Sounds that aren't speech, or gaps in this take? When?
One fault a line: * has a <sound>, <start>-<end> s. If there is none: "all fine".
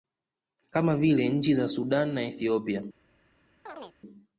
* has a chirp, 3.7-4.0 s